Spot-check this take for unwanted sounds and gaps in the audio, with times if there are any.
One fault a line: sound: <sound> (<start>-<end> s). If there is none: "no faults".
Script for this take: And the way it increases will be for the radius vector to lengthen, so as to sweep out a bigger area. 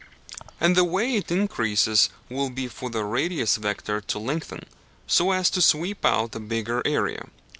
no faults